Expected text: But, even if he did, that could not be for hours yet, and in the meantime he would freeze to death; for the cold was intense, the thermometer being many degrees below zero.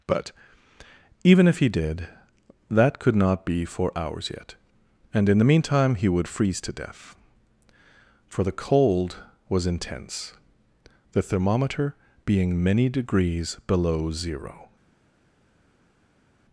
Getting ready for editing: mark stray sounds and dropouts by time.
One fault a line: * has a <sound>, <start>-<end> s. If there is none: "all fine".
all fine